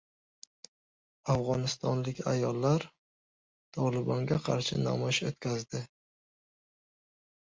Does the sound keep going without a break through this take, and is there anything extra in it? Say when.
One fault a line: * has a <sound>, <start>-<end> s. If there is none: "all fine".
all fine